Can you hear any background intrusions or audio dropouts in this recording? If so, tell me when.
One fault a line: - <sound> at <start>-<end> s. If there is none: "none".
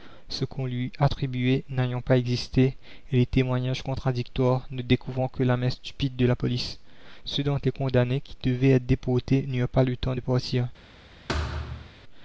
- thud at 11.3-11.9 s